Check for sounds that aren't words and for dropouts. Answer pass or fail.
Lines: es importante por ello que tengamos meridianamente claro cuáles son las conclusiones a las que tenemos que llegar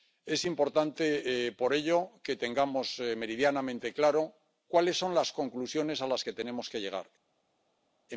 pass